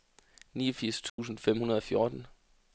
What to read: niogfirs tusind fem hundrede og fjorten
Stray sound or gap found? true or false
true